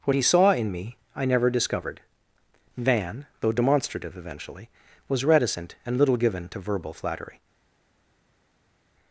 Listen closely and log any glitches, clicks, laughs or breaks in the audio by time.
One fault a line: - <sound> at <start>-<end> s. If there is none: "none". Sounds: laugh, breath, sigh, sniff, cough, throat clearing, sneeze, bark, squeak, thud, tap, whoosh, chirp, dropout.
none